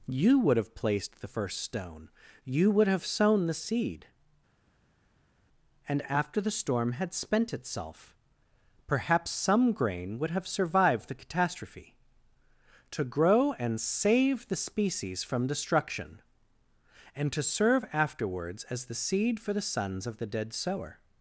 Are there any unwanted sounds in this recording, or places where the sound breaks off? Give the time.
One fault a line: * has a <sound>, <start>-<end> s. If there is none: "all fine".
all fine